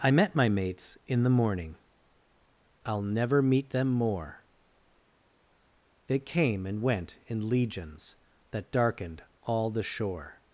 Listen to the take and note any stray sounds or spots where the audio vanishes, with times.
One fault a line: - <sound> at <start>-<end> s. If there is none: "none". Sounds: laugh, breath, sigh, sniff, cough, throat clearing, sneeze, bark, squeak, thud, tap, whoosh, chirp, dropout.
none